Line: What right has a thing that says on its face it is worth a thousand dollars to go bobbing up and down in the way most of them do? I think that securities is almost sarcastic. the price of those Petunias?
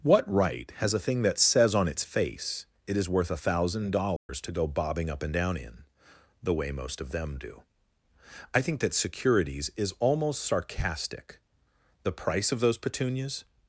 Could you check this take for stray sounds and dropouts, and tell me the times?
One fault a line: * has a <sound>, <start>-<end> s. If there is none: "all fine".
* has a dropout, 4.2-4.3 s